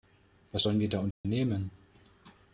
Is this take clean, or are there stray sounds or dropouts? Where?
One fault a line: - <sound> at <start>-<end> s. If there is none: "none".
- dropout at 1.1-1.2 s